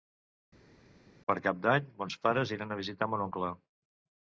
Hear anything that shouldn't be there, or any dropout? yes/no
no